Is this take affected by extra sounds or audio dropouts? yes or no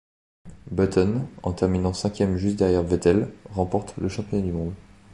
no